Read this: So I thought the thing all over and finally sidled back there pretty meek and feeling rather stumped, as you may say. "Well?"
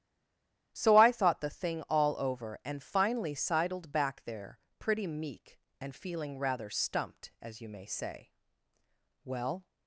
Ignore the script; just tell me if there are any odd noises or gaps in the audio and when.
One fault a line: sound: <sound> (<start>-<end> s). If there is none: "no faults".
no faults